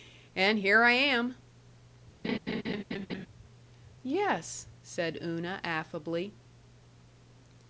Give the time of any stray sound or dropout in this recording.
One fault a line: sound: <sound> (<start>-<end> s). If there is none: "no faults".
sound: laugh (2.2-3.3 s)